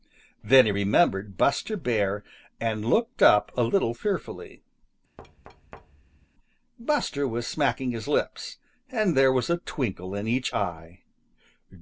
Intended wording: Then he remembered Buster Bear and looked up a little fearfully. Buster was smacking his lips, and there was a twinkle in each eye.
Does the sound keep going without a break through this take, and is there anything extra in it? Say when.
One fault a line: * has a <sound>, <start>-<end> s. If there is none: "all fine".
* has a thud, 5.2-6.3 s